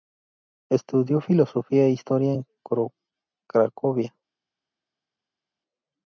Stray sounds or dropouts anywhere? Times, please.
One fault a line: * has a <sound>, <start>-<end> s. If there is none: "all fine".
all fine